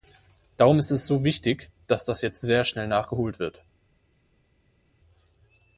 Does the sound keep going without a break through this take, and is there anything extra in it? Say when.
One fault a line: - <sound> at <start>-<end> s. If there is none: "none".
none